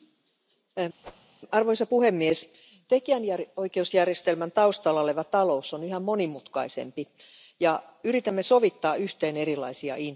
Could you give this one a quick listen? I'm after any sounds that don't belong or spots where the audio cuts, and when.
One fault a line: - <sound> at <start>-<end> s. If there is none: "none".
- whoosh at 1.0-1.3 s